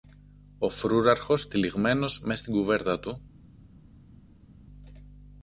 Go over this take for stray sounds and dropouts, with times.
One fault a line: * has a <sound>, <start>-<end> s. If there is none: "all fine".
all fine